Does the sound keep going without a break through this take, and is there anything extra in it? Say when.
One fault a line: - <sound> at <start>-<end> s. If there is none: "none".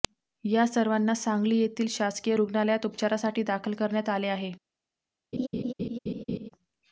- laugh at 5.3-6.5 s